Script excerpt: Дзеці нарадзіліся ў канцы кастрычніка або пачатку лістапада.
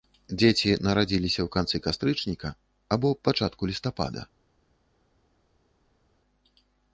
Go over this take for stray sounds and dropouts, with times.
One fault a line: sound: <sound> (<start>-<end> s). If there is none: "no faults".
no faults